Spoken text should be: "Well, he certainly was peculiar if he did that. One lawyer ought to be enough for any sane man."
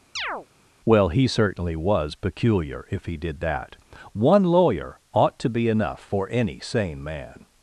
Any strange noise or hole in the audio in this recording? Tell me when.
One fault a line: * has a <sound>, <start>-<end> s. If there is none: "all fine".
* has a chirp, 0.2-0.5 s